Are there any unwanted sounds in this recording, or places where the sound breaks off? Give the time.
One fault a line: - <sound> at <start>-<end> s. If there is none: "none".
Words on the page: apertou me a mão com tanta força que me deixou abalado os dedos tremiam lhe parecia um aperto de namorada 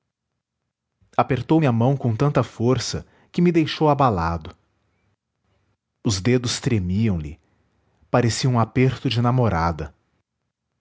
none